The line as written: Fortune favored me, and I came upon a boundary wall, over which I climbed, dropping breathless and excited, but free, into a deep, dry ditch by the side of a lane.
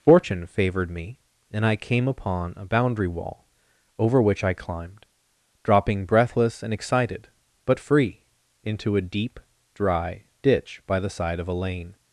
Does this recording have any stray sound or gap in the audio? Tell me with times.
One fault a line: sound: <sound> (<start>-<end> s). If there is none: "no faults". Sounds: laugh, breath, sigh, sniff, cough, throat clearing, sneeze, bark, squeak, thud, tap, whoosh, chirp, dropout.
no faults